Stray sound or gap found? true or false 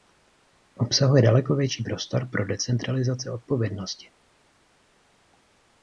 false